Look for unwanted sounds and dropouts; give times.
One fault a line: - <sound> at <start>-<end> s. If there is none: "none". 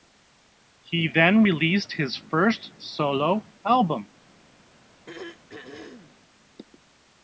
- throat clearing at 5.1-6.1 s